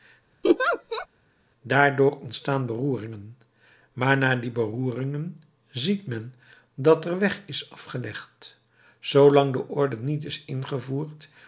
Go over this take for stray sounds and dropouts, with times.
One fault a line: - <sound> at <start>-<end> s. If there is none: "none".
- laugh at 0.4-1.1 s